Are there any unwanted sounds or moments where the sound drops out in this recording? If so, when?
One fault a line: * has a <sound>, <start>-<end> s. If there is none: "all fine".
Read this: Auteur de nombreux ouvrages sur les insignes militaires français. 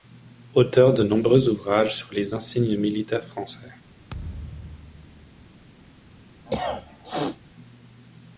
* has a thud, 4.1-5.5 s
* has a cough, 6.5-7.4 s